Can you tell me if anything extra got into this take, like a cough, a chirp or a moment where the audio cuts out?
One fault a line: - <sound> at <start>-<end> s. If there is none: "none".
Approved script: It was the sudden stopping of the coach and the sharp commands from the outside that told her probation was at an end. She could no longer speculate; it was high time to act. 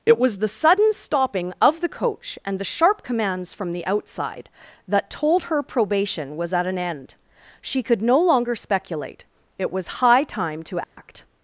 - dropout at 10.8-11.0 s